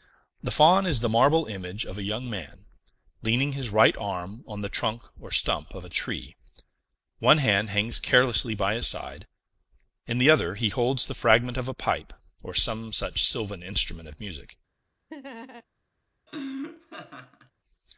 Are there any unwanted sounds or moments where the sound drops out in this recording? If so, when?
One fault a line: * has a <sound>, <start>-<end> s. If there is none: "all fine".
* has a laugh, 15.1-15.6 s
* has a laugh, 16.3-17.5 s